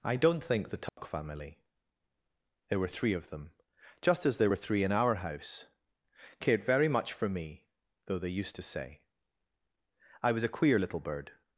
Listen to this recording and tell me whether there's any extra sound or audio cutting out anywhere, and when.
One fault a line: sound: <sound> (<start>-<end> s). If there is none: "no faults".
sound: dropout (0.9-1.0 s)